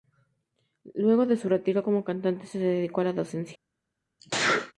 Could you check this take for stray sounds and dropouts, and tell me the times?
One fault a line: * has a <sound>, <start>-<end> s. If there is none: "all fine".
* has a sneeze, 4.2-4.7 s